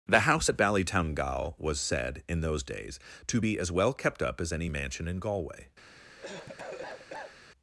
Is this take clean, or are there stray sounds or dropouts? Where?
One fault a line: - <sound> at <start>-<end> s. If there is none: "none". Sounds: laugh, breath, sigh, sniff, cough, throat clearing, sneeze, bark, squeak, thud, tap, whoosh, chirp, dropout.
- cough at 5.9-7.4 s